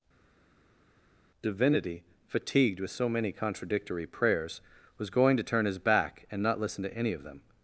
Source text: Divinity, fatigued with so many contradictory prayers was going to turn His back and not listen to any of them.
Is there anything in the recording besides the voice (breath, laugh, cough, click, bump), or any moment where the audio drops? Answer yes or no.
no